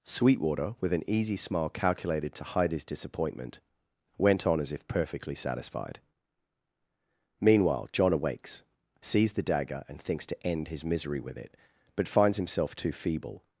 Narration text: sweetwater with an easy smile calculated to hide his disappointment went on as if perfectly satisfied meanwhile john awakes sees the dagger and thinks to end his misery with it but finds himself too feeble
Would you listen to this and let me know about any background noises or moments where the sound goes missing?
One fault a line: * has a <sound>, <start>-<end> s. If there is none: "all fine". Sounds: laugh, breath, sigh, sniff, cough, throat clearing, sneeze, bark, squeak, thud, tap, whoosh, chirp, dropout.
all fine